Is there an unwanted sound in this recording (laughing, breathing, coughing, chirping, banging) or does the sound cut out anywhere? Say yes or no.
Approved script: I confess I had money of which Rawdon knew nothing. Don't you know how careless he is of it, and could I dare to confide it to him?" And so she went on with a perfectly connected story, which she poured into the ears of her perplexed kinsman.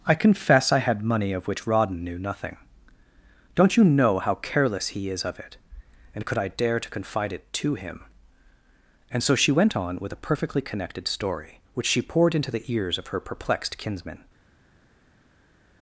no